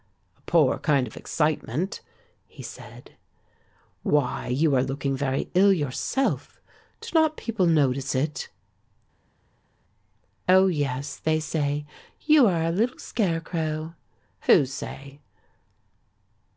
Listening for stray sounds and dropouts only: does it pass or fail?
pass